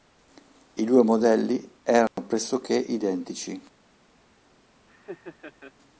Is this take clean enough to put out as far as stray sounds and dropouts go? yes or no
no